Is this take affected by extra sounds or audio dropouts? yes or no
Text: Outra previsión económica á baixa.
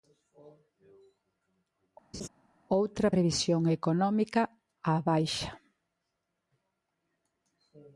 yes